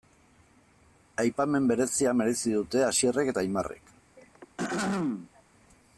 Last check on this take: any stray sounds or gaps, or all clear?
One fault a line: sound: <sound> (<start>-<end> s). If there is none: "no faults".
sound: throat clearing (4.2-5.4 s)